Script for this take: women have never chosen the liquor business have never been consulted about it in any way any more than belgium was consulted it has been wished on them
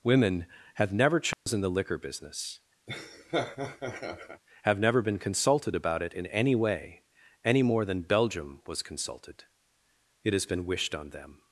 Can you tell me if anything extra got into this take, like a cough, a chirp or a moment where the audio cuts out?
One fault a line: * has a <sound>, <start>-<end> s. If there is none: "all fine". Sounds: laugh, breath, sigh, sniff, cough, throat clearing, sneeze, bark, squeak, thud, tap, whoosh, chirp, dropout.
* has a dropout, 1.3-1.5 s
* has a laugh, 2.9-4.4 s